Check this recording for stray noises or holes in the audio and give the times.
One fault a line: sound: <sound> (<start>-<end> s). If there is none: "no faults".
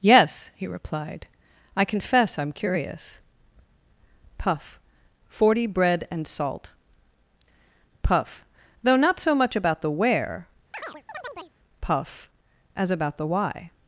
sound: chirp (10.7-11.5 s)